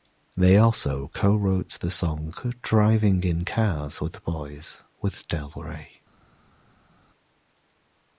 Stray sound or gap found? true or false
false